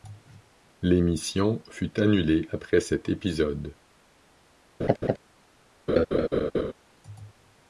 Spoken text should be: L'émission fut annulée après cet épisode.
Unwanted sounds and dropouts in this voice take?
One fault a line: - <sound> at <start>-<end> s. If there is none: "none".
- laugh at 4.8-5.2 s
- laugh at 5.9-6.7 s